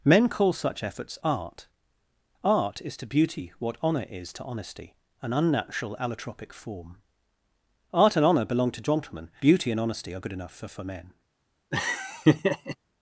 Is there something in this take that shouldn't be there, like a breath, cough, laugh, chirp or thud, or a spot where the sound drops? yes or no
yes